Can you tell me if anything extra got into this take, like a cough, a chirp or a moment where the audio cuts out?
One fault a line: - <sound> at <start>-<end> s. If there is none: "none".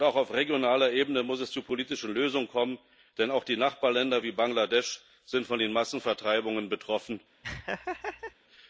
- laugh at 7.4-8.3 s